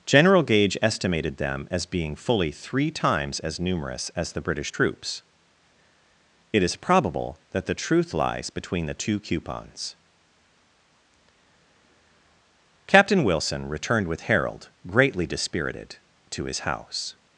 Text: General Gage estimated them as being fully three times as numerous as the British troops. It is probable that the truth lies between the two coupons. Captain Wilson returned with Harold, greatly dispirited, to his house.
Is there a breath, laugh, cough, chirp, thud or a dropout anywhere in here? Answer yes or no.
no